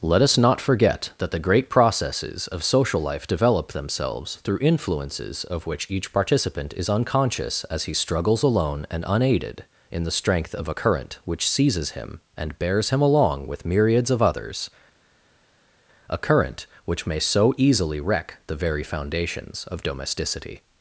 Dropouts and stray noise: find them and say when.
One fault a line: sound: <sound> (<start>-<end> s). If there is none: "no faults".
no faults